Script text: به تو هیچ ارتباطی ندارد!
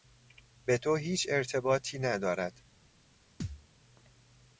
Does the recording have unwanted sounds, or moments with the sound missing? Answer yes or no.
yes